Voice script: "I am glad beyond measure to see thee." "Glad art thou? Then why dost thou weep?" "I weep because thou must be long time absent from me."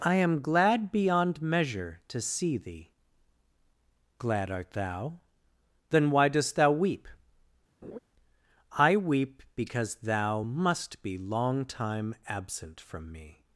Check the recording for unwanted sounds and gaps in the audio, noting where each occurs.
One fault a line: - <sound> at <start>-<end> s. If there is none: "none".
- laugh at 7.8-8.0 s